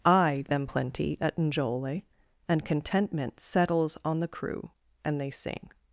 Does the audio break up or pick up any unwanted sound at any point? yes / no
no